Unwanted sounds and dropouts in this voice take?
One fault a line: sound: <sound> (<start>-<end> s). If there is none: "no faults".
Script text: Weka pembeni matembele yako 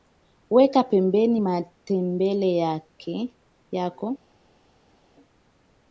no faults